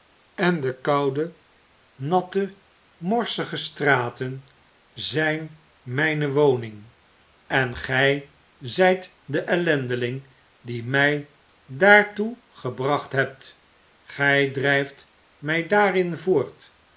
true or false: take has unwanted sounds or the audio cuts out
false